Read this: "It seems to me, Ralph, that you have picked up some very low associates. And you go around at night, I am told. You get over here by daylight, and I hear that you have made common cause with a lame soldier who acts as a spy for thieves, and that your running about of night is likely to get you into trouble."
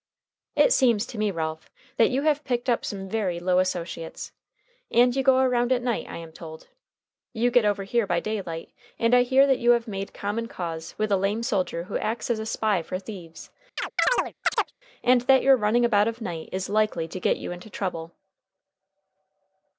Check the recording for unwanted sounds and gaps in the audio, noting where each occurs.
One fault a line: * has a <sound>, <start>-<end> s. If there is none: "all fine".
* has a chirp, 13.8-14.7 s